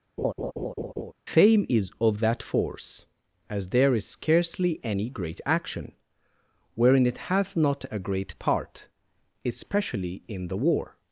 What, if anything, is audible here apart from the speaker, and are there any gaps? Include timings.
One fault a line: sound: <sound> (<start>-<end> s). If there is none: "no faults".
sound: laugh (0.2-1.1 s)